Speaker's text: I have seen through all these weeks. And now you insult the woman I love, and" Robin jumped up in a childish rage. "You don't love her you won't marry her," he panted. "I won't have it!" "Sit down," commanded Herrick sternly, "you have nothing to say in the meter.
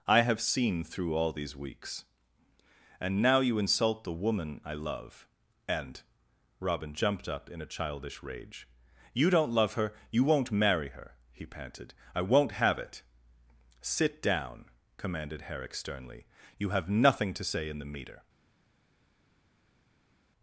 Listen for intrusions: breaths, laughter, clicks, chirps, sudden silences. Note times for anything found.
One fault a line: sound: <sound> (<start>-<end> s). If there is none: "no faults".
no faults